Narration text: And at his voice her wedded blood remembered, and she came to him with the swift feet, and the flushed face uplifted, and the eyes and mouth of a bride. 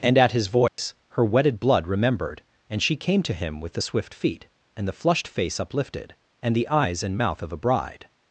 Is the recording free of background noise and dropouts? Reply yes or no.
no